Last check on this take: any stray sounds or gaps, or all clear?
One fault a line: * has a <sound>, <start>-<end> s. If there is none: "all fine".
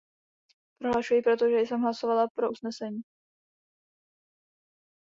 all fine